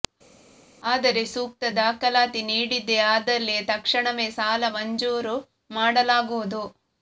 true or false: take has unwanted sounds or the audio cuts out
false